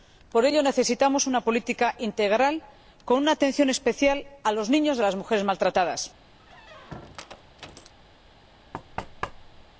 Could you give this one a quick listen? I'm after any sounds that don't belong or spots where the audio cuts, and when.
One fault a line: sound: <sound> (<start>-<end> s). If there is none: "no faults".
sound: squeak (6.4-7.9 s)
sound: thud (8.7-9.7 s)